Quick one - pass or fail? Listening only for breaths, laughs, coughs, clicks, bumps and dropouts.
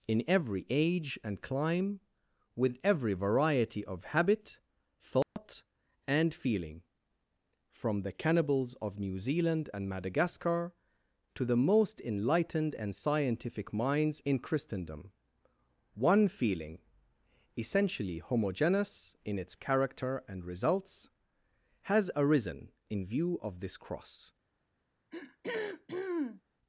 fail